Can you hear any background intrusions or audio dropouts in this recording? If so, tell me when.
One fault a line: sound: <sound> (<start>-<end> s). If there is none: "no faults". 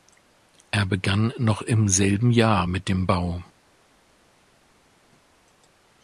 no faults